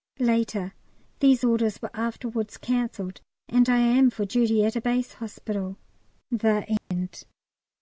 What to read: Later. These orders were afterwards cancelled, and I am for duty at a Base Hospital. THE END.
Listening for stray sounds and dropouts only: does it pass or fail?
fail